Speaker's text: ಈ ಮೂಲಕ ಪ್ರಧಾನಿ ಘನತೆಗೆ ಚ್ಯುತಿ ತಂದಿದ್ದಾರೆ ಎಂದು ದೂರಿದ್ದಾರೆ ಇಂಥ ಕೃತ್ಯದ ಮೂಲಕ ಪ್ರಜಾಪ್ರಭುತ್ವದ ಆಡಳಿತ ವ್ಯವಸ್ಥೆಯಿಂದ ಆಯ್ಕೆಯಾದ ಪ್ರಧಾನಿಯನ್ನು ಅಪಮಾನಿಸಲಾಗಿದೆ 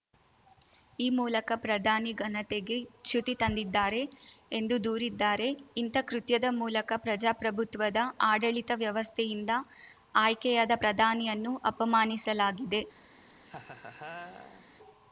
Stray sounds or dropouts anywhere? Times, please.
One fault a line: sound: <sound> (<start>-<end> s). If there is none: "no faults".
sound: laugh (13.3-14.7 s)